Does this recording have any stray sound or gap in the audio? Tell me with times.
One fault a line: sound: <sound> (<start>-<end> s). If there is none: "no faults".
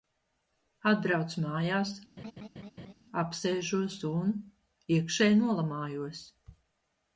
sound: laugh (2.2-2.9 s)